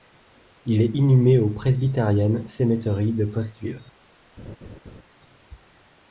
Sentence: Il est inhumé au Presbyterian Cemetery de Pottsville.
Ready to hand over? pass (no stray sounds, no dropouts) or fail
fail